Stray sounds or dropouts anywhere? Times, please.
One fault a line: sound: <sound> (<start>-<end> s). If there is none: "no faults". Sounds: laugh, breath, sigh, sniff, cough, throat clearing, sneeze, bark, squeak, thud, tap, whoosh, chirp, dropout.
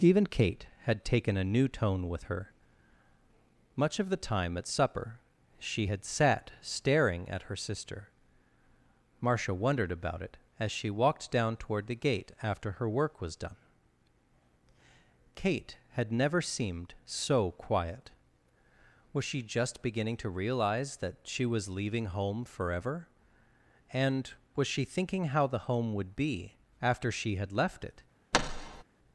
sound: thud (28.3-28.8 s)